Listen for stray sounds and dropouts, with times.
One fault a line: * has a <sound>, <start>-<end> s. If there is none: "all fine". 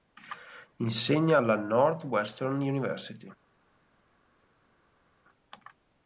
all fine